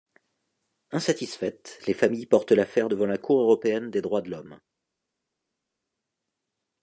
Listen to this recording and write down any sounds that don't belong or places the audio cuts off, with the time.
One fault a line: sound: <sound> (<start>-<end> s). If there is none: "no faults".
no faults